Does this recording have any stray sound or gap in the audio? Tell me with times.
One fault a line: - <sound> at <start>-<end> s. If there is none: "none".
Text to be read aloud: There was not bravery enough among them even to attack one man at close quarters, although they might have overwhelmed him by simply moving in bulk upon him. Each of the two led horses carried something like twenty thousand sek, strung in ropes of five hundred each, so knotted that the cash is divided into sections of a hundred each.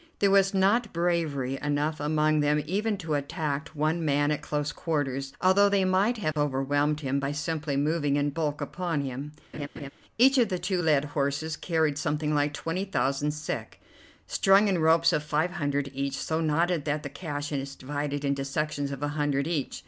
- dropout at 6.3-6.4 s
- laugh at 9.5-9.9 s